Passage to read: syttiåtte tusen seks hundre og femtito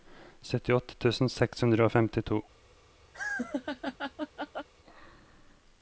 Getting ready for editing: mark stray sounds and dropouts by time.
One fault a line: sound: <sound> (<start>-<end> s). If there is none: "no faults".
sound: laugh (3.1-4.7 s)